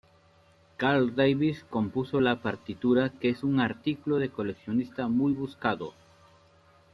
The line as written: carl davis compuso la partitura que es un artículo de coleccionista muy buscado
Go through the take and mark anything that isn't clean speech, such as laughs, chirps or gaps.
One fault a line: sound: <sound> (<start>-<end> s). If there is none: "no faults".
no faults